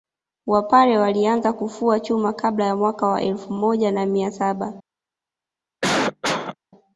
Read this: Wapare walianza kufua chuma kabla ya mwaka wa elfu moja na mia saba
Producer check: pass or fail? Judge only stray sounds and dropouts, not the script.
fail